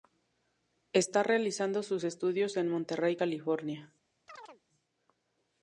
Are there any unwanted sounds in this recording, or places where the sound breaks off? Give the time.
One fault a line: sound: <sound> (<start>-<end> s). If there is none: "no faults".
sound: chirp (4.3-4.6 s)